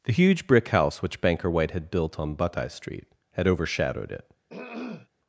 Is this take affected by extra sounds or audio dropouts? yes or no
yes